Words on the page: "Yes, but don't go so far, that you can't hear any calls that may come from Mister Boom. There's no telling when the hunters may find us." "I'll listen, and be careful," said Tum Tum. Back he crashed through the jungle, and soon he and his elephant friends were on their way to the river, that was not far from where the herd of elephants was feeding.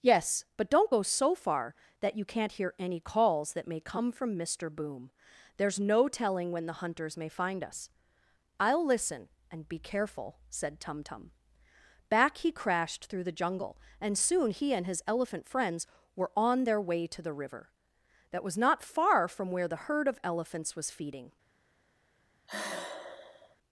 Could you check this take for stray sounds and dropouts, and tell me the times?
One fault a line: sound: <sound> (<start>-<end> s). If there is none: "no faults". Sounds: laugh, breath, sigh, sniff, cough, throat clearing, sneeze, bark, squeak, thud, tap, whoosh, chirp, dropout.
sound: sigh (22.5-23.6 s)